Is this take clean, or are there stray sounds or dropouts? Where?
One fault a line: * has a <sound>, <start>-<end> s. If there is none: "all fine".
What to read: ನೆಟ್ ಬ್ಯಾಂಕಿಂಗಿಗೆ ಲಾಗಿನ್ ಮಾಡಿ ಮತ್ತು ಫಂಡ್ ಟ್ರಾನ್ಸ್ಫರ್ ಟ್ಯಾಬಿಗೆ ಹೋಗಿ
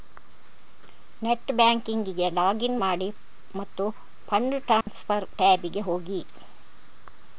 * has a dropout, 4.8-4.9 s